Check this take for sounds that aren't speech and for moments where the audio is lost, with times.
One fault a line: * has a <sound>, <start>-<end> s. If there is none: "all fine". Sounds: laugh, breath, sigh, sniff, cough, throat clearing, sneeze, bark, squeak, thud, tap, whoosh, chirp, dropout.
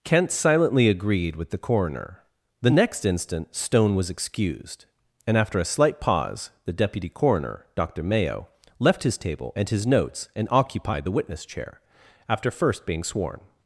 all fine